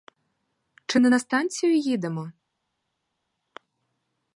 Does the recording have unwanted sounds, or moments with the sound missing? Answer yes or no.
no